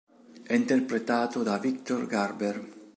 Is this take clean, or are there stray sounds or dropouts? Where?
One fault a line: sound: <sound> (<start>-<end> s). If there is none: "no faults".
no faults